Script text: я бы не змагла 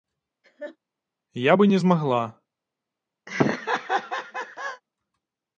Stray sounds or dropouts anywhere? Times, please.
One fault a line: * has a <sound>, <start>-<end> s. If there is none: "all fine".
* has a laugh, 0.4-0.8 s
* has a laugh, 3.3-4.8 s